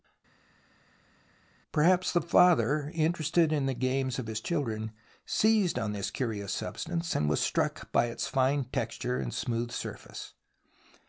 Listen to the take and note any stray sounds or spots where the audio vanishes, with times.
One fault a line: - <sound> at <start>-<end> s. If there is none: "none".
none